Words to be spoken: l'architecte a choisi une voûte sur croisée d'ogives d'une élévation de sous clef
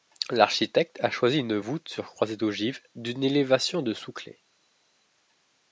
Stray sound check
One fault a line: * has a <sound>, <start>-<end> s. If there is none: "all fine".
all fine